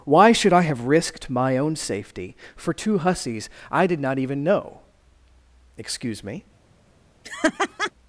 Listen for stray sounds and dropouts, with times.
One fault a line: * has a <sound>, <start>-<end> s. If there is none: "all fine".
* has a laugh, 7.2-7.9 s